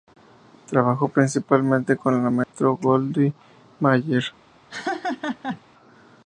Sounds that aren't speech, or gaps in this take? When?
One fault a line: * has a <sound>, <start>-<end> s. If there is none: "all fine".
* has a dropout, 2.4-2.5 s
* has a laugh, 4.7-5.6 s